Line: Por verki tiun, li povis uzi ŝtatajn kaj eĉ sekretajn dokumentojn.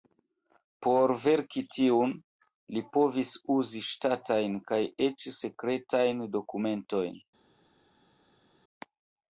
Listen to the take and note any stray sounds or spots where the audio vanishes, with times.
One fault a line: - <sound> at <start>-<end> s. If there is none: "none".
none